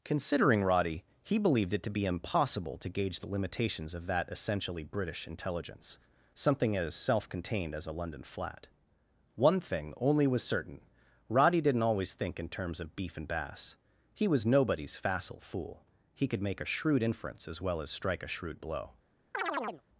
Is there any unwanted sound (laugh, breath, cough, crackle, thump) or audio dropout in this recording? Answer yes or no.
yes